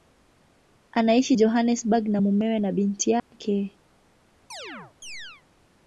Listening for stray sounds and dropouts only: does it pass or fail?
fail